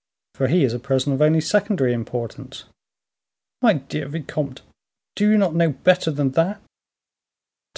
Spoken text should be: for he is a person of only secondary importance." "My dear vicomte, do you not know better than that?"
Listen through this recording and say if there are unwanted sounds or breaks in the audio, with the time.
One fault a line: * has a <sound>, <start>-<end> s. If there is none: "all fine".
all fine